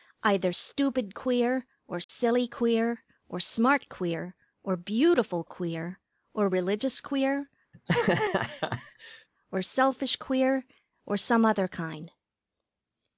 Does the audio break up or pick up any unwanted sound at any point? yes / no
yes